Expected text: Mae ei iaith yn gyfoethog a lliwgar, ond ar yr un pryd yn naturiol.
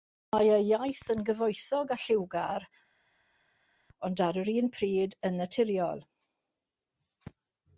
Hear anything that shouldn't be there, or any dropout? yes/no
no